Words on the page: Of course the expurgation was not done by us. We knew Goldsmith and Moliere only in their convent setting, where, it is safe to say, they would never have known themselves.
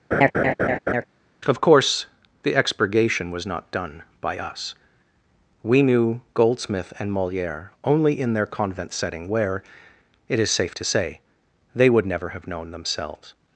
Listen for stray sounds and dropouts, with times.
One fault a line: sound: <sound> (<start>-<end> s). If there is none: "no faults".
sound: laugh (0.1-1.0 s)